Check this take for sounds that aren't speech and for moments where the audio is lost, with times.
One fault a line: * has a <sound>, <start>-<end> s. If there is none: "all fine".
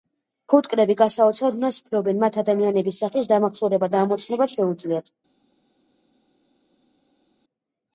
all fine